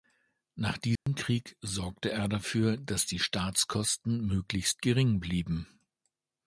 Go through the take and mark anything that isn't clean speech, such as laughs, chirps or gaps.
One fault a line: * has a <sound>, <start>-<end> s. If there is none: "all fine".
* has a dropout, 1.0-1.1 s